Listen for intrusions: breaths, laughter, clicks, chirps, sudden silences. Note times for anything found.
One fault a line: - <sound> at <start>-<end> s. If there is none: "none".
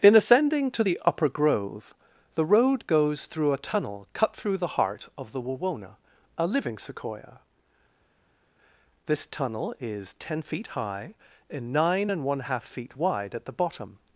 none